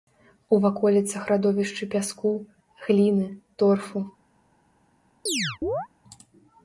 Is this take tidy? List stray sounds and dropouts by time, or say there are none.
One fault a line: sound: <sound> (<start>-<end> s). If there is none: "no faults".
sound: chirp (5.3-5.9 s)